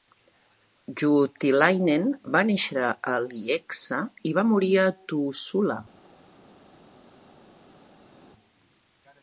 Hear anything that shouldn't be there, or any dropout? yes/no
no